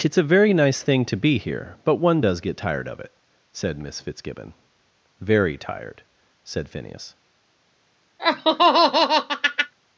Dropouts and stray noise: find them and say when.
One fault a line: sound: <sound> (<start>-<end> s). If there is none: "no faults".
sound: laugh (8.2-9.7 s)